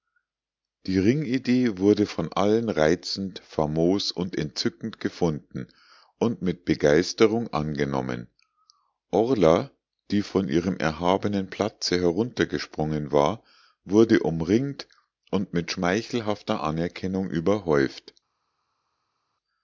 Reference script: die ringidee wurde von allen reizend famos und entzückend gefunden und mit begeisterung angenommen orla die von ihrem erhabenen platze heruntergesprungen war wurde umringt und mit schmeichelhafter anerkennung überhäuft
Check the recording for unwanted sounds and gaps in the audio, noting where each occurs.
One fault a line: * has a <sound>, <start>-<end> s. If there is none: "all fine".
all fine